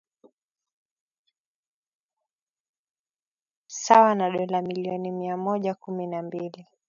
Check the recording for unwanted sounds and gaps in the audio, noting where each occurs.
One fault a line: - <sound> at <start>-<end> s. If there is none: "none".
none